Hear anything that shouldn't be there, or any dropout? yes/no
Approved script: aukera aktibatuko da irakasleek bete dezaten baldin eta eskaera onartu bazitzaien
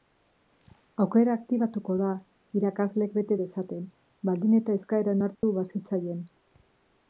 yes